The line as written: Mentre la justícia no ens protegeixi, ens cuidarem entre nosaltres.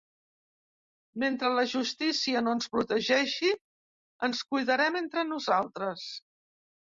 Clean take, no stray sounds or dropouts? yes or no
yes